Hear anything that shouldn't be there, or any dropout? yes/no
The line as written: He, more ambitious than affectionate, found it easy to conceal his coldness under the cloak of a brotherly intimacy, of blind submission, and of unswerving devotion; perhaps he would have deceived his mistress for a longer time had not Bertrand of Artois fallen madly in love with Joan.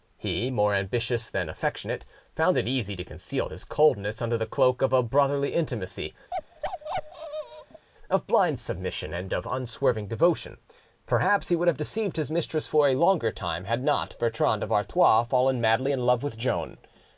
yes